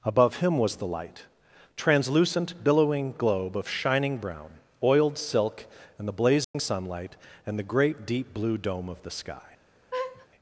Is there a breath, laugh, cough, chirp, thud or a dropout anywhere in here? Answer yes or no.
yes